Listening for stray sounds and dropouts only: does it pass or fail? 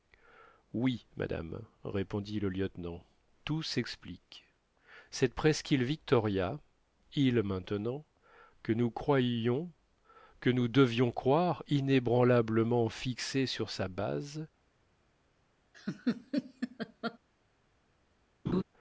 fail